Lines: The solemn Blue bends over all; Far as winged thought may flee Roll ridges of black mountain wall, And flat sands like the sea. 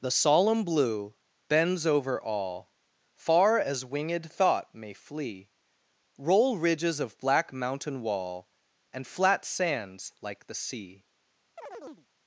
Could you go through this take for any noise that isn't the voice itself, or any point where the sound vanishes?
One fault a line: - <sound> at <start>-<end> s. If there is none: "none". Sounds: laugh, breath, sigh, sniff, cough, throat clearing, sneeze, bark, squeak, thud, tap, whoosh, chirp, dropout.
- chirp at 11.6-12.1 s